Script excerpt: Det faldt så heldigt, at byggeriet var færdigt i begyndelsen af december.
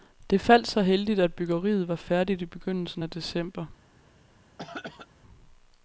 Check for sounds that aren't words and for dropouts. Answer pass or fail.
fail